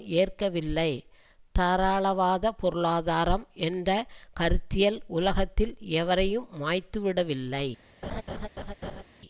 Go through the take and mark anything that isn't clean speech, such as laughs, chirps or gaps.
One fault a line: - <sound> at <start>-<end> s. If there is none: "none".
- laugh at 8.0-9.0 s